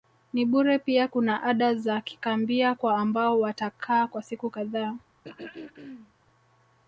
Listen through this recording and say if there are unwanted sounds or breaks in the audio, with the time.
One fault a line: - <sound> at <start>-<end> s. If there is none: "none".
- throat clearing at 5.2-6.1 s